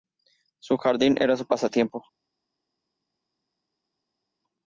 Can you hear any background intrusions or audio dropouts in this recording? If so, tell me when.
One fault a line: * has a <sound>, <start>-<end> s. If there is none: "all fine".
all fine